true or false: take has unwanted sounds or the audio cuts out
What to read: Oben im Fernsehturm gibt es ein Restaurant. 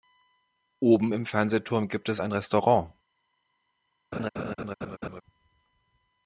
true